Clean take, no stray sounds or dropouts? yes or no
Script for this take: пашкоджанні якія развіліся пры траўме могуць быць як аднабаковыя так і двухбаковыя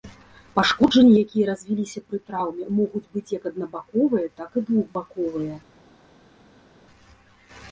yes